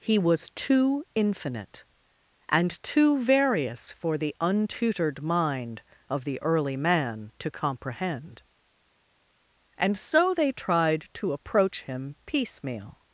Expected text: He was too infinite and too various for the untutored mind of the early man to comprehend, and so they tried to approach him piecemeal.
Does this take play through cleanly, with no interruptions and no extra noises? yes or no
yes